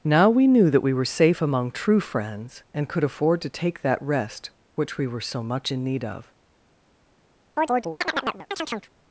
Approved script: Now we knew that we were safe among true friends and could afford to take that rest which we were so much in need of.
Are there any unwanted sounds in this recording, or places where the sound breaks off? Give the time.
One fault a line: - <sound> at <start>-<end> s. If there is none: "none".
- chirp at 7.6-8.9 s